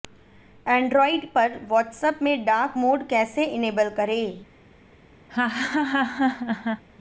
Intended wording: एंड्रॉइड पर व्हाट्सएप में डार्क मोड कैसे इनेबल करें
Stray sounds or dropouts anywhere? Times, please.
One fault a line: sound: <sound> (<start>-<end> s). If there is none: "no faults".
sound: laugh (5.3-6.8 s)